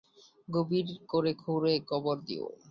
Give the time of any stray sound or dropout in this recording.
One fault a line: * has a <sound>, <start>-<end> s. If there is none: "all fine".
all fine